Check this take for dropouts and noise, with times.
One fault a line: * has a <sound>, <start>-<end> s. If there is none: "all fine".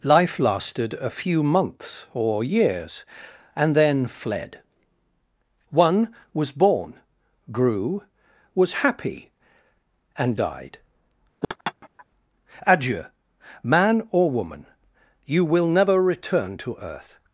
* has a laugh, 11.4-12.1 s